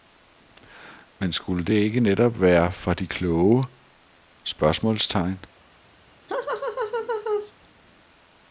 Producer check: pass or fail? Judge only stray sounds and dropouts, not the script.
fail